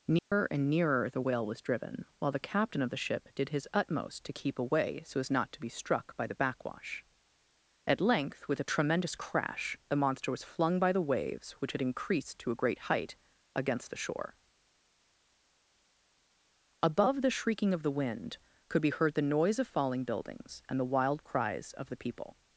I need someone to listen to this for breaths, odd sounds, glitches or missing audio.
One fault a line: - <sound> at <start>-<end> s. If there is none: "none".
- dropout at 0.2-0.3 s